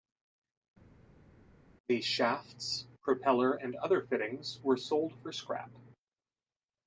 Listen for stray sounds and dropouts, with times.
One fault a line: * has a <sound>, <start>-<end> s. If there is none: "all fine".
all fine